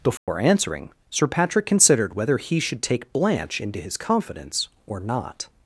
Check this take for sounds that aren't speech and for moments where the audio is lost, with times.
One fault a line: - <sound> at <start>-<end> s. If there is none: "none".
- dropout at 0.2-0.3 s